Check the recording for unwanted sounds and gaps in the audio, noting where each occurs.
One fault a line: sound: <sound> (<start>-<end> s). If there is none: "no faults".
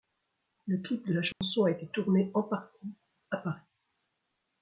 sound: dropout (1.3-1.4 s)